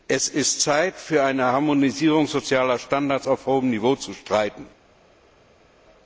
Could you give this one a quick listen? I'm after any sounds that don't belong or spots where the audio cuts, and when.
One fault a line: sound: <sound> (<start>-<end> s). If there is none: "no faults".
no faults